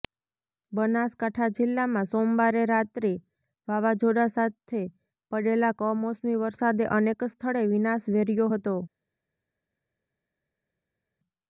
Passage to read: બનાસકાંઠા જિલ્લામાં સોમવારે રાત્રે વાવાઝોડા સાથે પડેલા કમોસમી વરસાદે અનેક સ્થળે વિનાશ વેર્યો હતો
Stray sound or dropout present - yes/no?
no